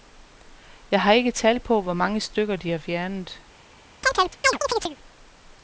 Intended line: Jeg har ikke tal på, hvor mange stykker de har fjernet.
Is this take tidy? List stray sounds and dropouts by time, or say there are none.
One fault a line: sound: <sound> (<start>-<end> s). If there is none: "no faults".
sound: chirp (4.0-5.0 s)